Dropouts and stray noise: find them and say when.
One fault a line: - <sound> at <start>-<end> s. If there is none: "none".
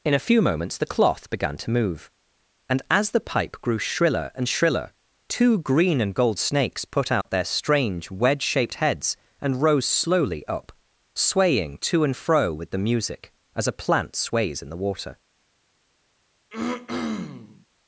- dropout at 7.2-7.2 s
- throat clearing at 16.5-17.7 s